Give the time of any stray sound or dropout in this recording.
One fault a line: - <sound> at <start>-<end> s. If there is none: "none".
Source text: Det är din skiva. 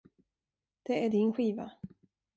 none